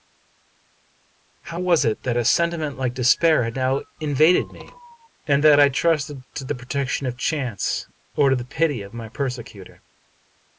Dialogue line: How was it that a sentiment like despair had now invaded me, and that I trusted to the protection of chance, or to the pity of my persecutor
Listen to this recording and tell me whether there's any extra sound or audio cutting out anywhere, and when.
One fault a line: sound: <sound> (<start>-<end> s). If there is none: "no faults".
no faults